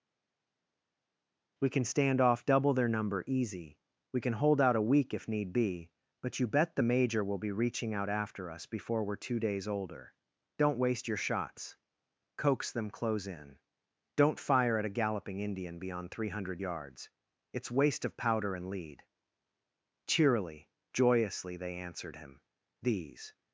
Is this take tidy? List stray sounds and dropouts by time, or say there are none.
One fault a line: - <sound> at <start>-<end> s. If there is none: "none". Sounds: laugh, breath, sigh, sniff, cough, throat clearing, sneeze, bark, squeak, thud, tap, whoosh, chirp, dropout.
none